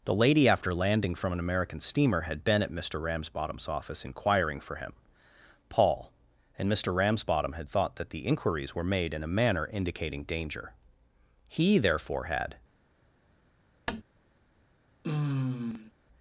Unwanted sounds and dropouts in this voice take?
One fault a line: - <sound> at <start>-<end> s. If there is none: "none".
- tap at 13.9-14.0 s
- sigh at 15.0-15.9 s